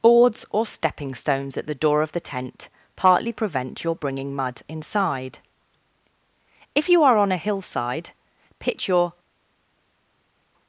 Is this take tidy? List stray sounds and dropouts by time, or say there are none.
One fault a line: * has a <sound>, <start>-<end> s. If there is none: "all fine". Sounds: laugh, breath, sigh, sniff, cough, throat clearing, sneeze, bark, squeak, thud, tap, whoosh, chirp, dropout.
all fine